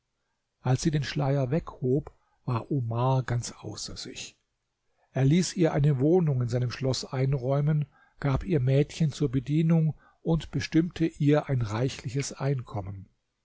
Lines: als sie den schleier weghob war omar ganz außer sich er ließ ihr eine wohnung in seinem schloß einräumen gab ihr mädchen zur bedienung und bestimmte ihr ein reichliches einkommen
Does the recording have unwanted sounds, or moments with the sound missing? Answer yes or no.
no